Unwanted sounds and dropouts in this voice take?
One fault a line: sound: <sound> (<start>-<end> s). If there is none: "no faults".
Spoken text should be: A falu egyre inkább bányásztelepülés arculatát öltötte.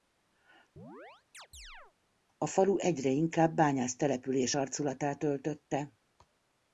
sound: chirp (0.8-1.9 s)